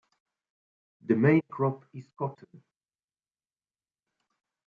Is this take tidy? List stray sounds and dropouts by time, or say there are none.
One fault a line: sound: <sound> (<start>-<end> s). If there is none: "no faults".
no faults